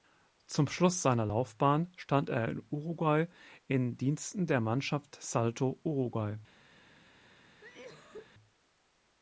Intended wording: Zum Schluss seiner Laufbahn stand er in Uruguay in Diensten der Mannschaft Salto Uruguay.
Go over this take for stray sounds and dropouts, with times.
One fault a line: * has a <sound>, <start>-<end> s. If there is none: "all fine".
* has a cough, 7.6-8.3 s